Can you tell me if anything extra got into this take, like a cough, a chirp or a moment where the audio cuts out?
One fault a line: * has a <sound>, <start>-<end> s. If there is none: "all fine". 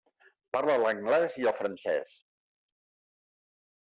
all fine